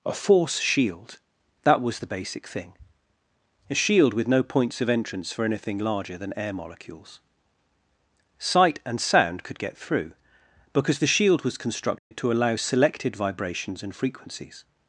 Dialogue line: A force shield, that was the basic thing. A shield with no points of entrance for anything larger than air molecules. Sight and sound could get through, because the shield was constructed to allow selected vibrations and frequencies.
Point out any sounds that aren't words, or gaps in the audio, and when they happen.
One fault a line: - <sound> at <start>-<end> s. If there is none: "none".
- dropout at 12.0-12.1 s